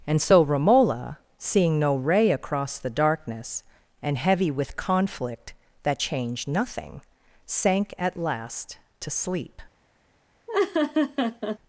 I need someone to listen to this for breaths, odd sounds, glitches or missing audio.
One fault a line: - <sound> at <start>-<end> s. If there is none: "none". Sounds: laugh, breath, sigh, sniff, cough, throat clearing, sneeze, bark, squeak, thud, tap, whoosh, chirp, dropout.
- laugh at 10.5-11.6 s